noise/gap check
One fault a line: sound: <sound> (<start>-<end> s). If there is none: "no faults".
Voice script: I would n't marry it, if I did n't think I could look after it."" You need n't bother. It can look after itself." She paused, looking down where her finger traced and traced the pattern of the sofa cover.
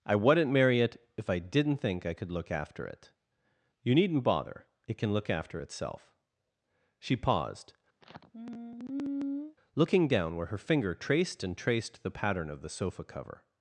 sound: sigh (8.0-9.6 s)